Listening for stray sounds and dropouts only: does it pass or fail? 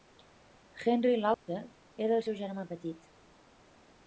fail